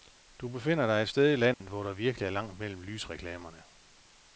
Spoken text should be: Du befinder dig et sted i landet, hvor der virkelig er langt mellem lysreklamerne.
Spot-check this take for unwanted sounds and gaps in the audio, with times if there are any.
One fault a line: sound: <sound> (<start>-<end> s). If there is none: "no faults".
sound: dropout (1.5-1.6 s)